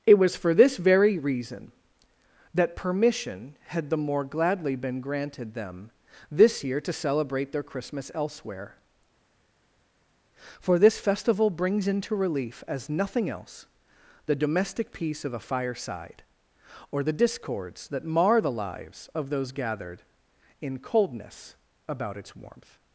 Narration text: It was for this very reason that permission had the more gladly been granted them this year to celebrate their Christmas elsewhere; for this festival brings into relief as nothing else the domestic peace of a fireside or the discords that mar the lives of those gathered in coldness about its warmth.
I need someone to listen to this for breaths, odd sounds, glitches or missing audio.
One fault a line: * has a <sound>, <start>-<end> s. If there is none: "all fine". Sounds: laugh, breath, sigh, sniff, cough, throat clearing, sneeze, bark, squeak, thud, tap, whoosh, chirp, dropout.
all fine